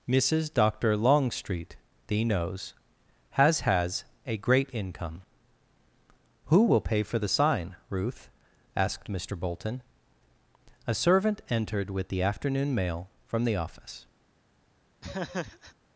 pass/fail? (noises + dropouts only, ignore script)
fail